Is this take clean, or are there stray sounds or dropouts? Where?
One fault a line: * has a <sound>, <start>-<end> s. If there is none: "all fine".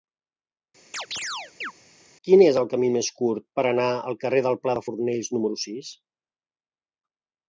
* has a chirp, 0.9-1.7 s